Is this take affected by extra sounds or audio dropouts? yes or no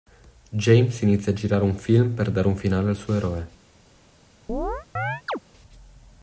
yes